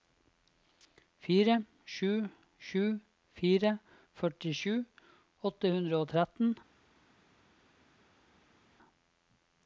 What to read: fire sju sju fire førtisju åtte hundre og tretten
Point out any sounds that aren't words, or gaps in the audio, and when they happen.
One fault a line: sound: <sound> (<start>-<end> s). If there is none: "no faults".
no faults